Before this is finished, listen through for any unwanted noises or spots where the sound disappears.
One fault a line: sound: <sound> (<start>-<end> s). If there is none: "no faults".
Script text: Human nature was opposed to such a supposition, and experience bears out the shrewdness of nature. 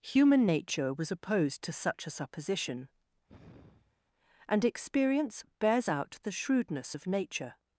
sound: sigh (3.3-4.0 s)